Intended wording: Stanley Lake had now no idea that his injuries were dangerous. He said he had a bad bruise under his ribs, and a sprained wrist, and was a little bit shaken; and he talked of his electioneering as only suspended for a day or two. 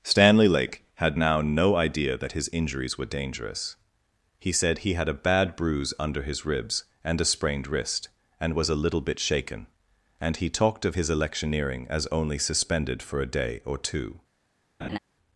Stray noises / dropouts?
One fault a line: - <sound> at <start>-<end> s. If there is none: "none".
- laugh at 14.8-15.0 s